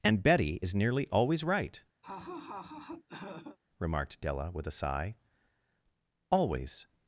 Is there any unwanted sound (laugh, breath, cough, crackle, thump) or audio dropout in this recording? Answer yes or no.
yes